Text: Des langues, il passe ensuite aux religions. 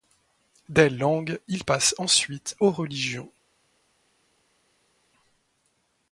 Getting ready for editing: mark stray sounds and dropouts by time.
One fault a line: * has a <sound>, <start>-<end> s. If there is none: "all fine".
all fine